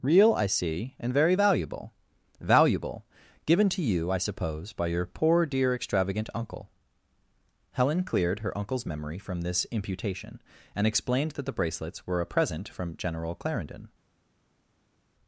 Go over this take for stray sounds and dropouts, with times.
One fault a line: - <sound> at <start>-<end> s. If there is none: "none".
none